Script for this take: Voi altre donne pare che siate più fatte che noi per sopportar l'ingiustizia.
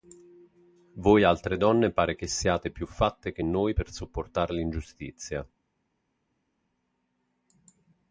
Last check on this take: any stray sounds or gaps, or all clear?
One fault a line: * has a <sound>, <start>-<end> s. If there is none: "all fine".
all fine